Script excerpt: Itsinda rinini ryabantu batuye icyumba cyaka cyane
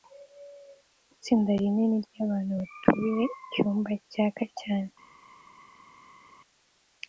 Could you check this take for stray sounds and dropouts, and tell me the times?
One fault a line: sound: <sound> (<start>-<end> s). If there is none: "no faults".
no faults